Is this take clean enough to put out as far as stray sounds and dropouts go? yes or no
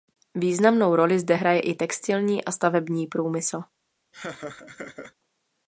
no